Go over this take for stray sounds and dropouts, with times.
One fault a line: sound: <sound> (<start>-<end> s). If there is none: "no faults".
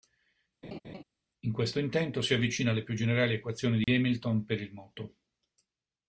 sound: laugh (0.6-1.0 s)
sound: dropout (3.8-3.9 s)